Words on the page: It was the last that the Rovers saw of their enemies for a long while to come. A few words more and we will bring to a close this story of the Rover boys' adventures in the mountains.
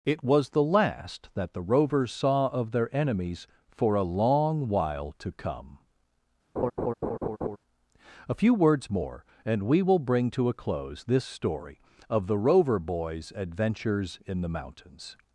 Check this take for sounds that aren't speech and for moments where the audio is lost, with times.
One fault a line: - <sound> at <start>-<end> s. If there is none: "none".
- laugh at 6.6-7.6 s